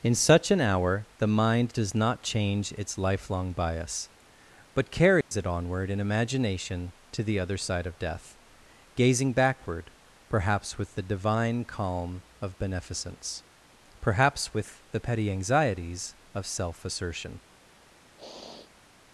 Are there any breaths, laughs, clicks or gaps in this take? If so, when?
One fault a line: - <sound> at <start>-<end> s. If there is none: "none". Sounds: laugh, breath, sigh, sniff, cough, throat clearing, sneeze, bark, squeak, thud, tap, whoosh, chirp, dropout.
- dropout at 5.2-5.3 s
- sniff at 18.2-18.8 s